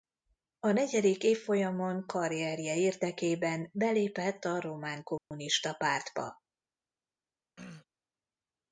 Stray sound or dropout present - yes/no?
yes